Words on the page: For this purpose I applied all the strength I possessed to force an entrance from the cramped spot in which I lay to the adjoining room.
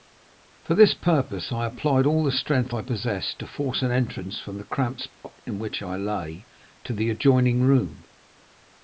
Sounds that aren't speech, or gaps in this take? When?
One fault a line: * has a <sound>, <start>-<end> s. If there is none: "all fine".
* has a dropout, 5.1-5.2 s